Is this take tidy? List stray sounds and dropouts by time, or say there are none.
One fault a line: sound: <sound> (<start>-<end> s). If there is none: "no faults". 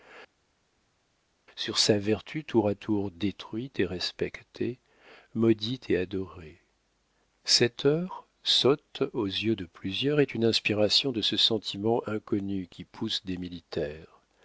no faults